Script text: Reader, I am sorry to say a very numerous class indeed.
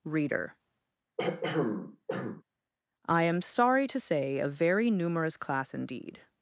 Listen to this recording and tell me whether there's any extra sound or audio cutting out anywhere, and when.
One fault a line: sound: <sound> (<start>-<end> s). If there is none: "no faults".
sound: throat clearing (1.2-2.4 s)